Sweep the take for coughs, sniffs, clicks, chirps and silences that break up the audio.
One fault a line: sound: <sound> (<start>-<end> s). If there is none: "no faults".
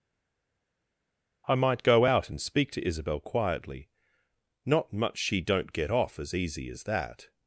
no faults